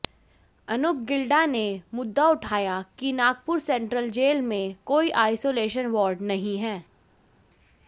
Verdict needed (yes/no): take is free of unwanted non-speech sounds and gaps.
yes